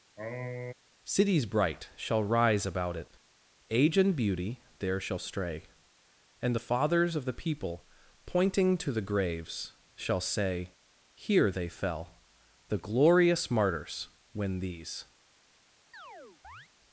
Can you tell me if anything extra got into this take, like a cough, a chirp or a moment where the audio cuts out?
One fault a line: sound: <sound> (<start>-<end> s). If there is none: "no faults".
sound: sniff (0.2-0.7 s)
sound: chirp (15.9-16.7 s)